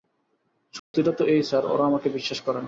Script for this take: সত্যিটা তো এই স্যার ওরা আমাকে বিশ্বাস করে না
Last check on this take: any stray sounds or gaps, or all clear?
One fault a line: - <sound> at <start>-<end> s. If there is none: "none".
- dropout at 0.8-0.9 s